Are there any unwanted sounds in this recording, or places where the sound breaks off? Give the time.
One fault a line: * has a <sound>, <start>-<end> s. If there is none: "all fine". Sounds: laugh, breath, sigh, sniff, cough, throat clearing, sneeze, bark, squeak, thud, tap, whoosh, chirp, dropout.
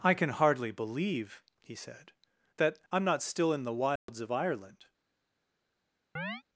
* has a dropout, 4.0-4.1 s
* has a chirp, 6.2-6.4 s